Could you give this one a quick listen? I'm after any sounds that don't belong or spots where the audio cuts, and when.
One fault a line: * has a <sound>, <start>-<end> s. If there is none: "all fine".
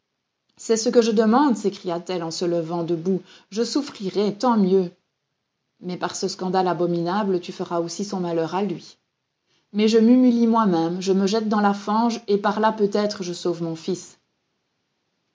all fine